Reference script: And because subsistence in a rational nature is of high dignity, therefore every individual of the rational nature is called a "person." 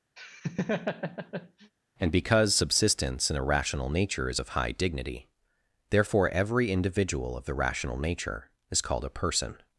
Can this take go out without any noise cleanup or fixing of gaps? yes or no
no